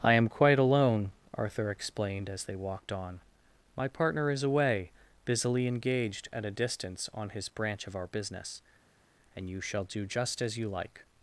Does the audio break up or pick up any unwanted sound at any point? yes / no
no